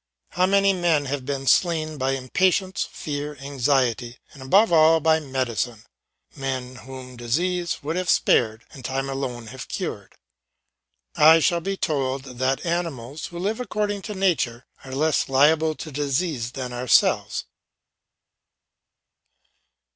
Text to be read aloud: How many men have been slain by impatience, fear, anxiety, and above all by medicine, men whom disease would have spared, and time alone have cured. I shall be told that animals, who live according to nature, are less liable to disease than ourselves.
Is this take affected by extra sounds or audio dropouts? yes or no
no